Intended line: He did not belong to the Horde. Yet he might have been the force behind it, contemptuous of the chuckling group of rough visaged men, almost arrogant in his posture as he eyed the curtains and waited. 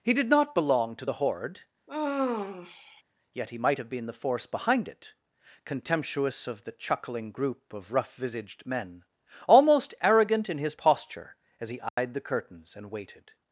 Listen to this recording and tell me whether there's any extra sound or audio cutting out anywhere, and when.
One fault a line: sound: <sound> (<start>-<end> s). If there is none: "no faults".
sound: sigh (1.9-3.0 s)
sound: dropout (11.9-12.0 s)